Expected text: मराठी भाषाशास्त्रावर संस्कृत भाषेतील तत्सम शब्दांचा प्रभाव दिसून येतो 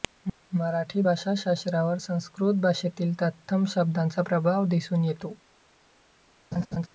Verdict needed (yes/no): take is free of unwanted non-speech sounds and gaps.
no